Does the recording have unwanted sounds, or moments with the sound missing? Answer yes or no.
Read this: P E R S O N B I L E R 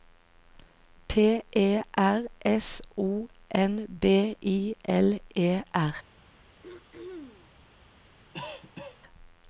yes